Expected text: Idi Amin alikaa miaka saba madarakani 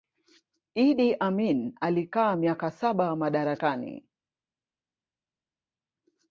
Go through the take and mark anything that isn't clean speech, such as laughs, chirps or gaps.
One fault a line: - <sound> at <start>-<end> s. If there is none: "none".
none